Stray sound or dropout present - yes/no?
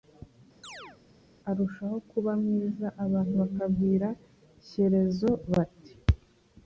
yes